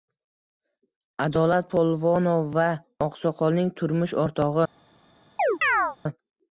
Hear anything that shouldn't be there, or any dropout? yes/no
yes